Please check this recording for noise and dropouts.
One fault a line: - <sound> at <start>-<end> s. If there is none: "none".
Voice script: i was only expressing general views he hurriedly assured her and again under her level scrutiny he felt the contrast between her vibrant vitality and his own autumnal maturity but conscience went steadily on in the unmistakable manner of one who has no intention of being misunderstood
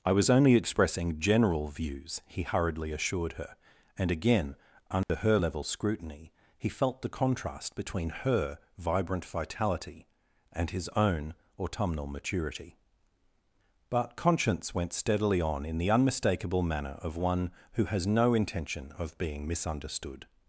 - dropout at 5.0-5.1 s